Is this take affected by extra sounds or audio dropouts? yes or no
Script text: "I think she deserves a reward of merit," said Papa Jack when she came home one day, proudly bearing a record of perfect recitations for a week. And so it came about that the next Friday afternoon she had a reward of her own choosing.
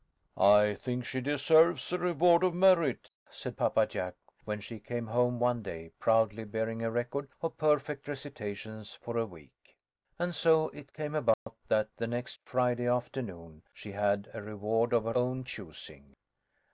yes